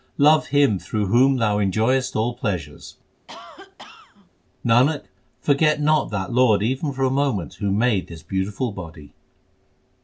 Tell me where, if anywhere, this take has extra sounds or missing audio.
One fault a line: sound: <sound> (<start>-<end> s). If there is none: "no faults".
sound: cough (3.3-4.3 s)